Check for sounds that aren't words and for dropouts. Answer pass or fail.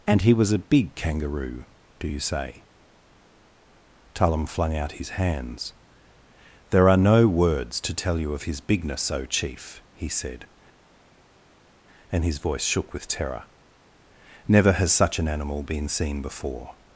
pass